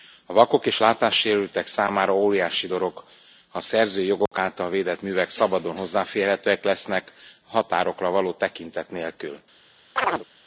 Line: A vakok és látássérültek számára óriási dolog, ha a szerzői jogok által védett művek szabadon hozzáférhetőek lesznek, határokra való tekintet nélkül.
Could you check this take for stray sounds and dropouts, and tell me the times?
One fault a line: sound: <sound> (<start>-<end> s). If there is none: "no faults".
sound: dropout (4.3-4.3 s)
sound: chirp (10.0-10.3 s)